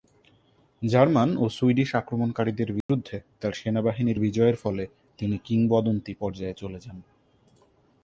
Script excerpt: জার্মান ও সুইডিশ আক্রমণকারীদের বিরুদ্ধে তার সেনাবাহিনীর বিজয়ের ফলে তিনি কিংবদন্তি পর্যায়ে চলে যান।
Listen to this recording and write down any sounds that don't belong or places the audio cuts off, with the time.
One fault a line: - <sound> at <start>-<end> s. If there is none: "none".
- dropout at 2.8-2.9 s